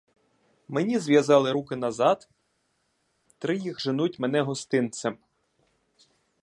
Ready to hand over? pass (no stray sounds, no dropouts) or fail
pass